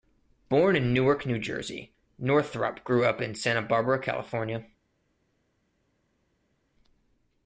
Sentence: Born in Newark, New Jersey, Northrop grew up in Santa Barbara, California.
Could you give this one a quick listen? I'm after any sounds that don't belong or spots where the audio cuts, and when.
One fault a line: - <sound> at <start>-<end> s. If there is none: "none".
none